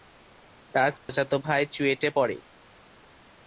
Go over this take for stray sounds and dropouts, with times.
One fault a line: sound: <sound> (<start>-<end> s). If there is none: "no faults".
sound: dropout (1.0-1.1 s)